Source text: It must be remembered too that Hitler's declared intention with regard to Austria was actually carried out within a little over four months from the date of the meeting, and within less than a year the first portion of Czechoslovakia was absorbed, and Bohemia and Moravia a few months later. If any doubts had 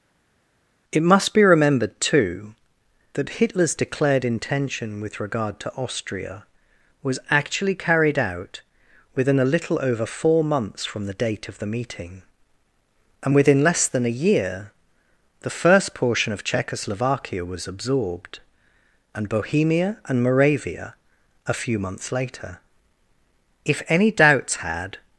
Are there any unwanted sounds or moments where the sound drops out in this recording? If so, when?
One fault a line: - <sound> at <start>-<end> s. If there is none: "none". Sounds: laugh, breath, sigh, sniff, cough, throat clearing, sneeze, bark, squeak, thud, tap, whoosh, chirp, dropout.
none